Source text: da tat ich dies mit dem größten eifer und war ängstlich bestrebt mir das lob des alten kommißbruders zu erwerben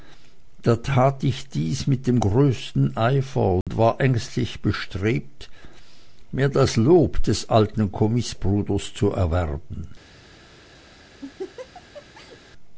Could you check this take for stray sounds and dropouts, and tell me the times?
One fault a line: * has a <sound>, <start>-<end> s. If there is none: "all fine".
* has a dropout, 3.6-3.7 s
* has a laugh, 11.2-12.4 s